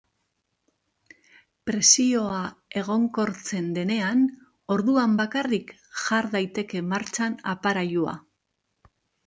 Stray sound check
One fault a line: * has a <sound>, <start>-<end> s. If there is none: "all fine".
all fine